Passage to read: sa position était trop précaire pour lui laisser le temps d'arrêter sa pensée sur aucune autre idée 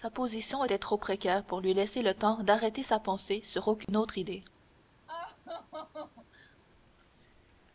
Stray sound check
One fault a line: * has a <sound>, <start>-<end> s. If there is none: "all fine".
* has a dropout, 3.8-3.9 s
* has a laugh, 5.1-6.6 s